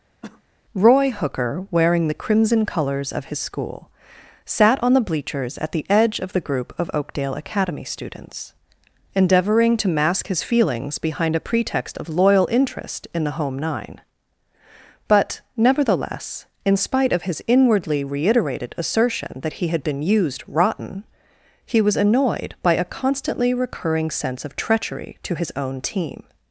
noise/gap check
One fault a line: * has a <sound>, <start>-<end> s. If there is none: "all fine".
* has a cough, 0.2-0.4 s